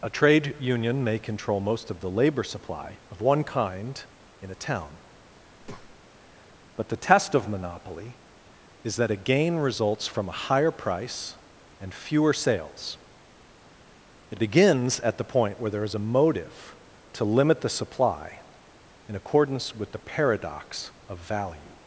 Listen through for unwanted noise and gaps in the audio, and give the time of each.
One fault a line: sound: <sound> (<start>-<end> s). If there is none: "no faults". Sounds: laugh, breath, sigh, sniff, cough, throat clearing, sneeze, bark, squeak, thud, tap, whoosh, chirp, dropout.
sound: breath (5.6-6.0 s)